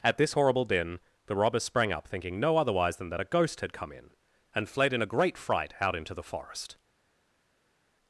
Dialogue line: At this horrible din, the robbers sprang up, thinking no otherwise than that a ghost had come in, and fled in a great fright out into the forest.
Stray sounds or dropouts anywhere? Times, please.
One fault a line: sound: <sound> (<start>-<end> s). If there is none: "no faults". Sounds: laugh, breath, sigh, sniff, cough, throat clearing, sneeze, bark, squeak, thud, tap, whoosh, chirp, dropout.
no faults